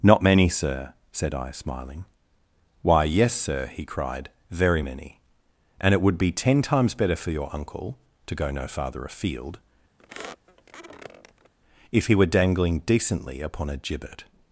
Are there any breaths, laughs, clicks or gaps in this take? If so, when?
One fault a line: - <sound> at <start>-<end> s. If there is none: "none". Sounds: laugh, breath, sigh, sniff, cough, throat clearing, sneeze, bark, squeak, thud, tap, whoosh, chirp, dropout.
- squeak at 10.0-11.5 s